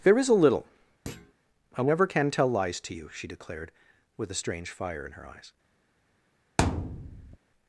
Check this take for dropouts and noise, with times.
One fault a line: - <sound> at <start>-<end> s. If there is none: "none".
- thud at 1.1-1.3 s
- thud at 6.6-7.4 s